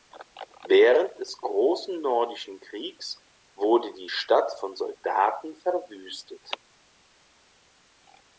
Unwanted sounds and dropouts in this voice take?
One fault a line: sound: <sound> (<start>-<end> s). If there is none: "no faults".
no faults